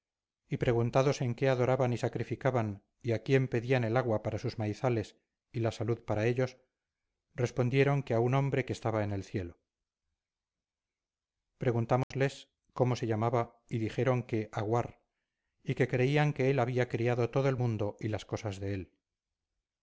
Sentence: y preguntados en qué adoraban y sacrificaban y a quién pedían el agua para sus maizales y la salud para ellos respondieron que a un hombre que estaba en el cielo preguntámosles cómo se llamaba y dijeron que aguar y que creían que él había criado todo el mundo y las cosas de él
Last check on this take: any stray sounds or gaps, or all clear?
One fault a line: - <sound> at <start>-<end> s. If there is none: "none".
- dropout at 12.0-12.1 s